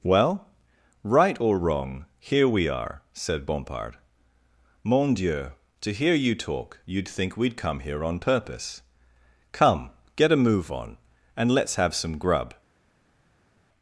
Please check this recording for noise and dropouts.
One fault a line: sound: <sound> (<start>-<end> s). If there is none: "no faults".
no faults